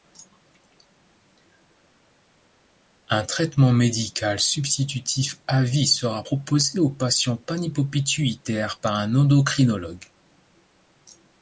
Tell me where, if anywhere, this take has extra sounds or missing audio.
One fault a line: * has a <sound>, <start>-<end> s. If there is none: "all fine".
all fine